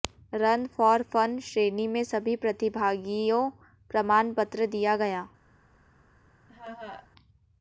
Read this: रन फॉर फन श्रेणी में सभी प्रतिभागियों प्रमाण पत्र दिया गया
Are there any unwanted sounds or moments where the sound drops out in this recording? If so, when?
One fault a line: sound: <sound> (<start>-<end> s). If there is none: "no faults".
sound: laugh (6.5-7.1 s)